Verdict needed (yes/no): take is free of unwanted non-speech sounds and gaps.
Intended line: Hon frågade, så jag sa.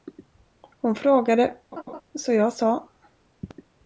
no